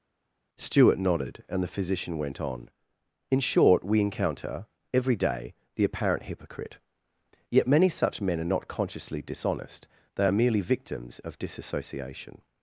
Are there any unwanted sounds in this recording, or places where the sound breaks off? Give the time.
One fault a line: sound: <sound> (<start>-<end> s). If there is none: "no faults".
no faults